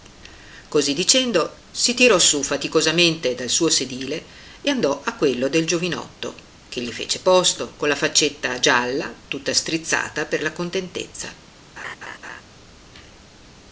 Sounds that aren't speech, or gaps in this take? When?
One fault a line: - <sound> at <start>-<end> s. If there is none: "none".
- laugh at 11.8-12.4 s